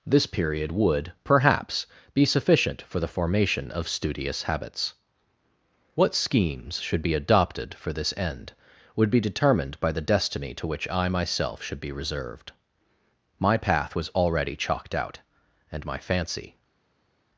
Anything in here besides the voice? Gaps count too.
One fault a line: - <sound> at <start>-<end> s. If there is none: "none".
none